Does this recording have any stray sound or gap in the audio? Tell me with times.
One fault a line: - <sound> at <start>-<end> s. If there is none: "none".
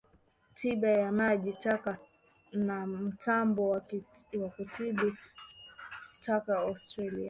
none